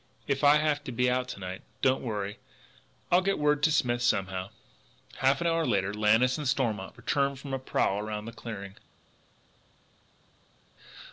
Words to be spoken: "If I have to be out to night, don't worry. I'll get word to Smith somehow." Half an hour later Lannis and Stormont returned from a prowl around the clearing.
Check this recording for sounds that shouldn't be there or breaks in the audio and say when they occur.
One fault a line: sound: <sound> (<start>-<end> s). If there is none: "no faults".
no faults